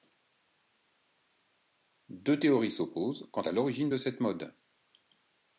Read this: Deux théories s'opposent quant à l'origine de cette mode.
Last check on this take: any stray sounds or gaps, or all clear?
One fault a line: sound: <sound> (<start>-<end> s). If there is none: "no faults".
no faults